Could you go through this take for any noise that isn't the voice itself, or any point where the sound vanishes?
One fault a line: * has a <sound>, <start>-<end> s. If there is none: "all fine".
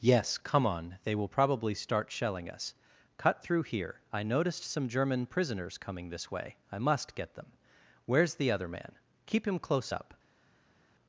all fine